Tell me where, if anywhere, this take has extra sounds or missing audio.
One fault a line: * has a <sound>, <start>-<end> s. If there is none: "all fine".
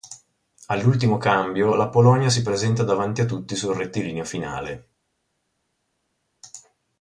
all fine